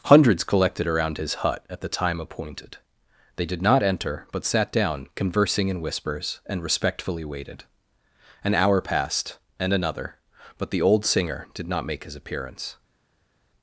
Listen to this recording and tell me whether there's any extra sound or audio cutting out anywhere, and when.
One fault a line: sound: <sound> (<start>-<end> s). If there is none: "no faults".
no faults